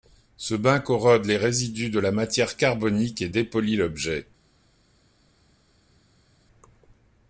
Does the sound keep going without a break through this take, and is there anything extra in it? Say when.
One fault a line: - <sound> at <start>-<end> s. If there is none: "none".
none